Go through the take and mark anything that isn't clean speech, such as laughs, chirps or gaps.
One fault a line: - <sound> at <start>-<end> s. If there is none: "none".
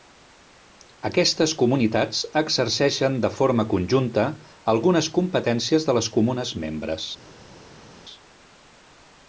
none